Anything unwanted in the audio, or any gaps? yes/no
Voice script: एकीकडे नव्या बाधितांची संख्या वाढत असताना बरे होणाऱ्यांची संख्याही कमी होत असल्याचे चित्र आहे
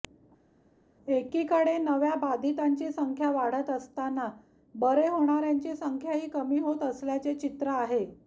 no